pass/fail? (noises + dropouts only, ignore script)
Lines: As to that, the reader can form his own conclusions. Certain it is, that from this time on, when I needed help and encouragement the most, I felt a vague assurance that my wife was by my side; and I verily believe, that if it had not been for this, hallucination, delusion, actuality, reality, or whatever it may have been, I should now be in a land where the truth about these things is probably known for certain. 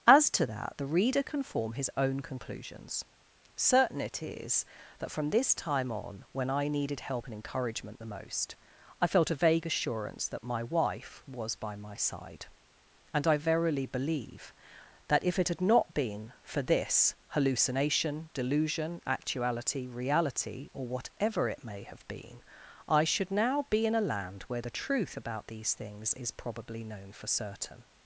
pass